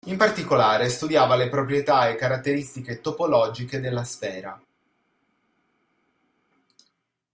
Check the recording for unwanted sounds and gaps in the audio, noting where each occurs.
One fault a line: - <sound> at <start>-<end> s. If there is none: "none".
none